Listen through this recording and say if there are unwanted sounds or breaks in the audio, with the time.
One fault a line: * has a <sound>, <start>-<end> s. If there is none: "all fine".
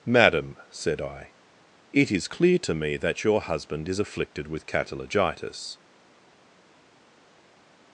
all fine